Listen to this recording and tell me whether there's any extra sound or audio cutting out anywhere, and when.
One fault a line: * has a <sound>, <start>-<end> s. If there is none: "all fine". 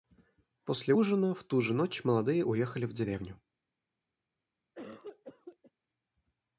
* has a cough, 4.8-5.7 s